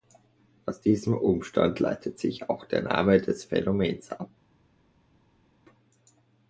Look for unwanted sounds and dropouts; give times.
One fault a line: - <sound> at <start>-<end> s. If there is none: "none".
none